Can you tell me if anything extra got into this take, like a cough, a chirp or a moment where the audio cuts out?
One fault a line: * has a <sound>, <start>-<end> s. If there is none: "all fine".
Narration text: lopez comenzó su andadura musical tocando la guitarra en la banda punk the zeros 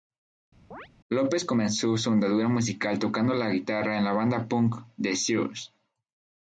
* has a chirp, 0.7-0.9 s